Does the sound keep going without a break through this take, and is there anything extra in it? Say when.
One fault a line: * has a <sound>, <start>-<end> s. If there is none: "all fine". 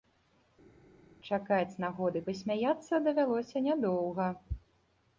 all fine